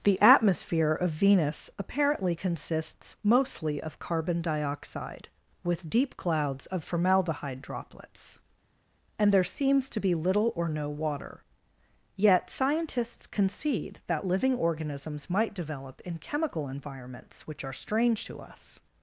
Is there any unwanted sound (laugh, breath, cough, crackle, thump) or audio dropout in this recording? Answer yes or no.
no